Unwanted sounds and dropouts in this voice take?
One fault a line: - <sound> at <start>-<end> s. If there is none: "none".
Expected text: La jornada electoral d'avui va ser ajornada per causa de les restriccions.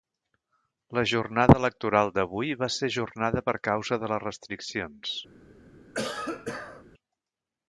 - cough at 5.9-6.8 s